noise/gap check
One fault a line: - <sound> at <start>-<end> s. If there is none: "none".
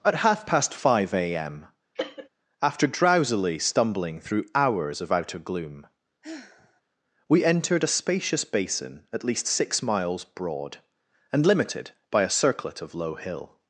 - cough at 2.0-2.3 s
- sigh at 6.2-6.8 s